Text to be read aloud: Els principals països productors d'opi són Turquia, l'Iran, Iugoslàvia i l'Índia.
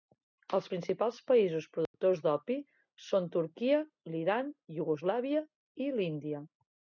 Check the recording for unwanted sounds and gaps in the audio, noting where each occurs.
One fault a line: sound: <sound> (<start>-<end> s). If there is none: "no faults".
sound: dropout (1.9-1.9 s)